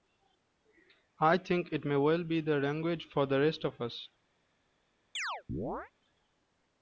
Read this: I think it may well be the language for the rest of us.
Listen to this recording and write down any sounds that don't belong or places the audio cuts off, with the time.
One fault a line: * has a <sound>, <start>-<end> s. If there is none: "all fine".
* has a chirp, 5.1-5.9 s